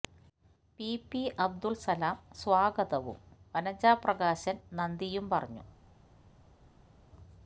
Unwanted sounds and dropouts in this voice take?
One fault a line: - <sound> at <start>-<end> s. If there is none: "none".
none